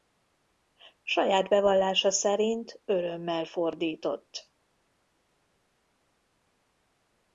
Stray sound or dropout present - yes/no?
no